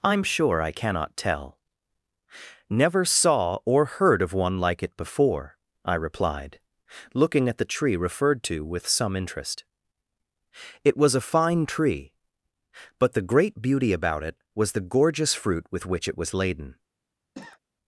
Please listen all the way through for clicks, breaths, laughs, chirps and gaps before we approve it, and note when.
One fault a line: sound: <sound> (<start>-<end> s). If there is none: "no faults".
sound: cough (17.3-17.6 s)